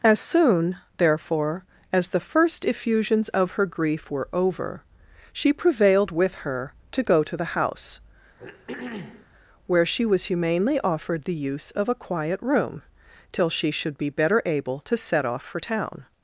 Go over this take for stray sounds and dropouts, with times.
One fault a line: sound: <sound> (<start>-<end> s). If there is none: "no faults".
sound: throat clearing (8.4-9.3 s)